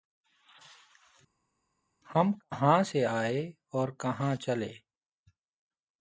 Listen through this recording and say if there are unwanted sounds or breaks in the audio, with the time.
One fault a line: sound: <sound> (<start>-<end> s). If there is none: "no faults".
no faults